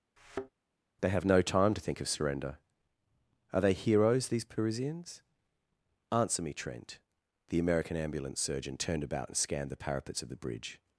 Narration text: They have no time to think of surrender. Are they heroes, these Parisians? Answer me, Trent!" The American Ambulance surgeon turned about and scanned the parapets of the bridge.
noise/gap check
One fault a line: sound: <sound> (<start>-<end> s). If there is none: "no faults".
sound: thud (0.2-0.5 s)